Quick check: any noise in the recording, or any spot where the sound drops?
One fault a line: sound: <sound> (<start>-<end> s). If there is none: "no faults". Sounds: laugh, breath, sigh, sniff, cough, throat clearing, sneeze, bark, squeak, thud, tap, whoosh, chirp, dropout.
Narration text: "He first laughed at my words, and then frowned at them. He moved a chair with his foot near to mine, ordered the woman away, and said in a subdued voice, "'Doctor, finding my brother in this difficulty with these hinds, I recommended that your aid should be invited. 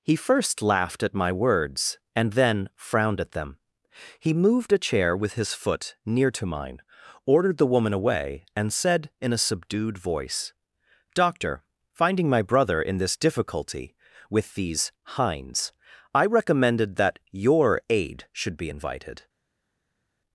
no faults